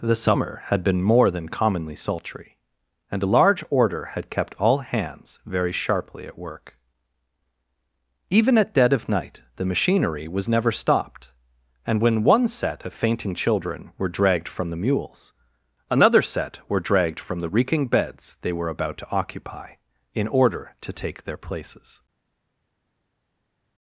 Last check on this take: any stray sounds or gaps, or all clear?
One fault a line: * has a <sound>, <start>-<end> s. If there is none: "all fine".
all fine